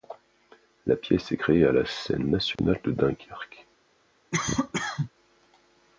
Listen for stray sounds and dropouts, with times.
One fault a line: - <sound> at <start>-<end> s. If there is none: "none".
- dropout at 2.6-2.6 s
- cough at 4.3-5.1 s